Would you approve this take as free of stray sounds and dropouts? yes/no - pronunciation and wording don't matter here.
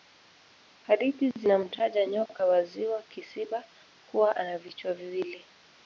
yes